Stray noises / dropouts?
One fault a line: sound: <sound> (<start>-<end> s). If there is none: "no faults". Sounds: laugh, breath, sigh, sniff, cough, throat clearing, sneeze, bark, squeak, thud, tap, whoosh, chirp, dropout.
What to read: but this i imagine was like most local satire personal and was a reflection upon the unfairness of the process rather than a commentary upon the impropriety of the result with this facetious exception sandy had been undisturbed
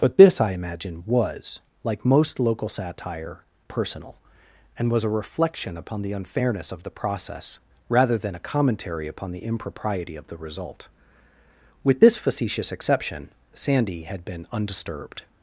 no faults